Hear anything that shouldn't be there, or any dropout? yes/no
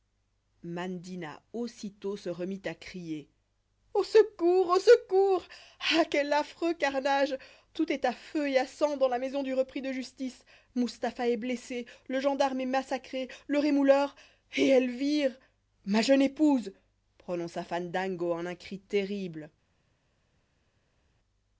no